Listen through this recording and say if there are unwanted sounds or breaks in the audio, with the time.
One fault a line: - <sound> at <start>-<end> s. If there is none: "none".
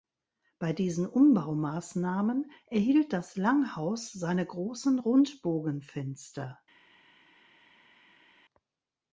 none